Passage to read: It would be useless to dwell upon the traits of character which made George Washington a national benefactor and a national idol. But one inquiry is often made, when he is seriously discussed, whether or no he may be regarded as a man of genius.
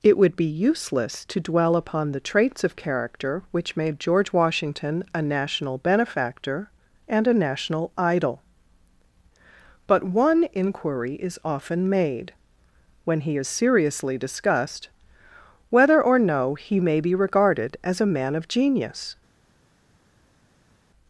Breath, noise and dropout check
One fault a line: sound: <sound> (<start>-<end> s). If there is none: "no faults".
no faults